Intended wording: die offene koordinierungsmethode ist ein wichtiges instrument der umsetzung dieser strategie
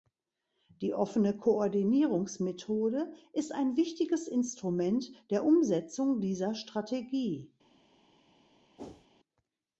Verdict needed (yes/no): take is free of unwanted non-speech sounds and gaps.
no